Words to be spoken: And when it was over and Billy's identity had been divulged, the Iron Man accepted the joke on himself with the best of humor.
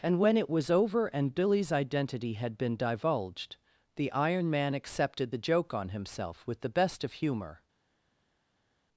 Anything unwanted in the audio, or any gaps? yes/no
no